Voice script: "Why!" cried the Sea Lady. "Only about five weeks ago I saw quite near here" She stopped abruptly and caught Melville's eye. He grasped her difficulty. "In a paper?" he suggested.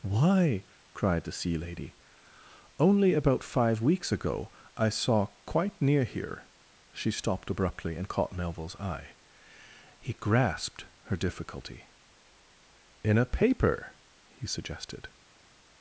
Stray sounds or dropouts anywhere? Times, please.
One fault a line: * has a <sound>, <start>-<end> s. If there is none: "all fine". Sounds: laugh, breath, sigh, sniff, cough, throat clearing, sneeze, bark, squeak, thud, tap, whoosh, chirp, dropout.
all fine